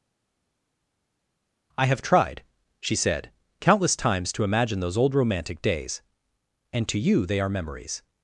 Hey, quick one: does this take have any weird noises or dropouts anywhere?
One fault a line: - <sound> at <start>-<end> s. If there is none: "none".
none